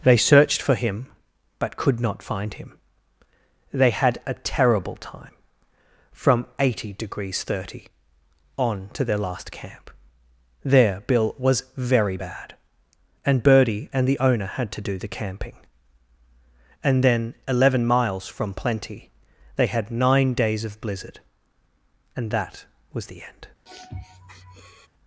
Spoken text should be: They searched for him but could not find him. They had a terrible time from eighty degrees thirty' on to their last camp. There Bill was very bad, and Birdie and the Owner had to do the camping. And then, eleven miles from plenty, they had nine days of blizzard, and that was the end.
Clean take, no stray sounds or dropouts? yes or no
no